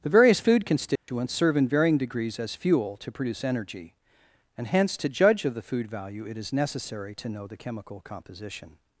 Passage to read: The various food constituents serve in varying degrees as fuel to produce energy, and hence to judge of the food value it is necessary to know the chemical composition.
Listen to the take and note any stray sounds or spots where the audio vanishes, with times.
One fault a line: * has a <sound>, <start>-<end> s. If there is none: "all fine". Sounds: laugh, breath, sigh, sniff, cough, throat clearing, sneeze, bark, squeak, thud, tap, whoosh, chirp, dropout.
* has a dropout, 1.0-1.1 s